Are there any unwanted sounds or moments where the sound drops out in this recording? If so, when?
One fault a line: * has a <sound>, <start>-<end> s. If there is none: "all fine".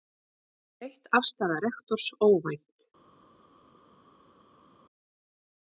all fine